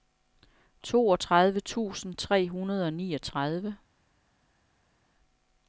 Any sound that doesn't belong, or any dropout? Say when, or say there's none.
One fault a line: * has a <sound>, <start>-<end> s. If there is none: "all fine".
all fine